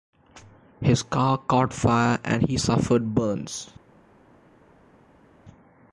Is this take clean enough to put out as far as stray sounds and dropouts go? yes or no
yes